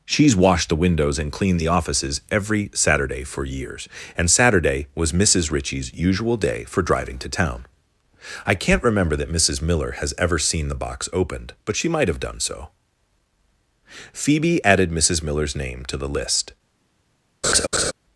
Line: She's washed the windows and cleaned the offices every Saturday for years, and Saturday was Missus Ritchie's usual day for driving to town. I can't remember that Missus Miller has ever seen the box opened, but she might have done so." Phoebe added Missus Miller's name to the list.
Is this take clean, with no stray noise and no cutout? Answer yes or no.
no